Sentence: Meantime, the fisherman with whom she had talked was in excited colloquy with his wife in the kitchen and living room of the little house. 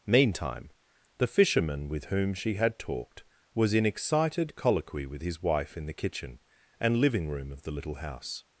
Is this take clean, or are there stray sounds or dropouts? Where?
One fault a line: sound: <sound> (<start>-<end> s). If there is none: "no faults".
no faults